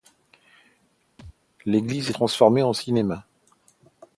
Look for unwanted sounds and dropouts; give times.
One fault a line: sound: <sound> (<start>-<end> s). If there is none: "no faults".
sound: thud (1.2-1.4 s)